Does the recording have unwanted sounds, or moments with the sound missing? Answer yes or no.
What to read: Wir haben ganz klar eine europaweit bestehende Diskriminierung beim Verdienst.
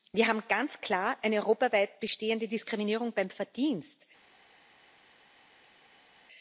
no